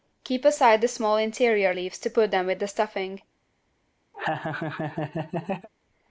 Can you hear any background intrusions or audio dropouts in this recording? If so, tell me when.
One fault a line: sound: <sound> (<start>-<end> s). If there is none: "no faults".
sound: laugh (4.1-5.7 s)